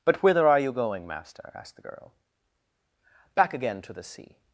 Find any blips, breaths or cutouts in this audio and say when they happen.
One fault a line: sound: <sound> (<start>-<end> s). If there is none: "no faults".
no faults